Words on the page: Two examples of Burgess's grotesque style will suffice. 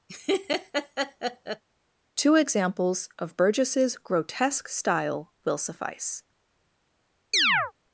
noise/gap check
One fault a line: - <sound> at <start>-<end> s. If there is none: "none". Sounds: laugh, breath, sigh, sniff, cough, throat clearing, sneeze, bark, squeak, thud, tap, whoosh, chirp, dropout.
- laugh at 0.1-1.6 s
- chirp at 7.3-7.7 s